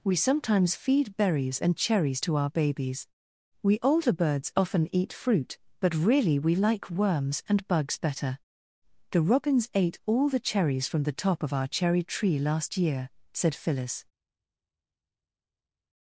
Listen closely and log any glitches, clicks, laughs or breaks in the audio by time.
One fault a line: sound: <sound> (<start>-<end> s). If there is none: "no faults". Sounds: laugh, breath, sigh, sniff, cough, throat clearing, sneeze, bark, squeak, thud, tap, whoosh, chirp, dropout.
no faults